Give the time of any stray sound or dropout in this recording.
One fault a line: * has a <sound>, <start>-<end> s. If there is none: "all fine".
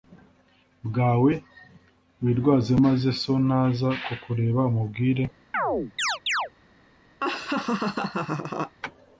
* has a chirp, 5.5-6.5 s
* has a laugh, 7.2-8.8 s